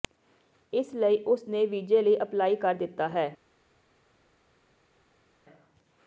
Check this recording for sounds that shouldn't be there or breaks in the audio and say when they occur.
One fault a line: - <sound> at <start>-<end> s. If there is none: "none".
none